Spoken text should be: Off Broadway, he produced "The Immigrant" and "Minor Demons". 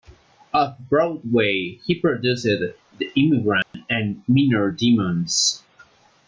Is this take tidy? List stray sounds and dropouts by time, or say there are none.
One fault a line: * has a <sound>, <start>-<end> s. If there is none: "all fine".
* has a dropout, 3.6-3.7 s